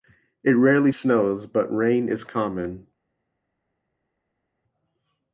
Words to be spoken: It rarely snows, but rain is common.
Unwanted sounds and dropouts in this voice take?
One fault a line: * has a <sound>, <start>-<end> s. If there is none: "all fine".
all fine